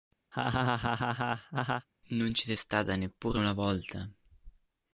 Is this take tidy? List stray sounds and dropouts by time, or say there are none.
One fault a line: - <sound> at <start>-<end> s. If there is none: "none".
- laugh at 0.3-1.9 s